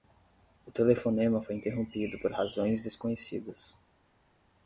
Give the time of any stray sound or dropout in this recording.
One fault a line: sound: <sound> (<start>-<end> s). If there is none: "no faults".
no faults